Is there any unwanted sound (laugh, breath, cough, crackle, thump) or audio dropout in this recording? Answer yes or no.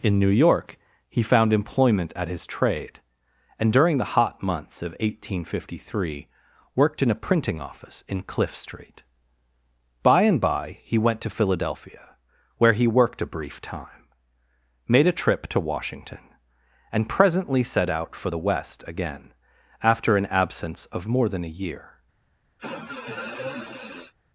yes